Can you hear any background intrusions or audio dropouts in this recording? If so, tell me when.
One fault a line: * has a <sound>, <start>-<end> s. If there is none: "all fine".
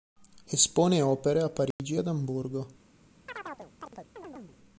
* has a dropout, 1.7-1.8 s
* has a chirp, 3.3-4.6 s